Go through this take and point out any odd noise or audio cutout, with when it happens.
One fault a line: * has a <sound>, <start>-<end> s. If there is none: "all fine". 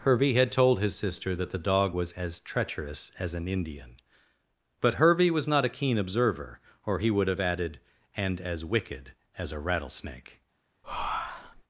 * has a breath, 10.8-11.6 s